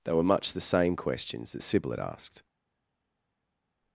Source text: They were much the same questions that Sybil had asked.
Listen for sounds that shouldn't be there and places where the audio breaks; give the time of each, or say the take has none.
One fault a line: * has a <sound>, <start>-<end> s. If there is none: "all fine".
all fine